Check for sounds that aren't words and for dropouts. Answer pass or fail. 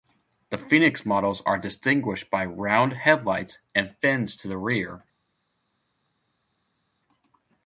pass